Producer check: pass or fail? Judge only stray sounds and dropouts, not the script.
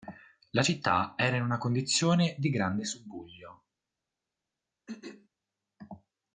fail